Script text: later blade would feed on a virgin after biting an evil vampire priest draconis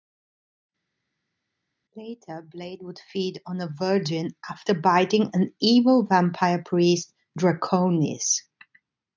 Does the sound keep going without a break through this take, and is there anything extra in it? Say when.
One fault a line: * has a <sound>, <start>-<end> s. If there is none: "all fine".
all fine